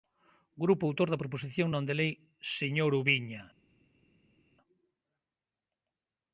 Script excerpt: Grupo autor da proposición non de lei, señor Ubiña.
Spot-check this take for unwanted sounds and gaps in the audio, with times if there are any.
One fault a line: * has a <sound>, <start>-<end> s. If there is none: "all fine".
all fine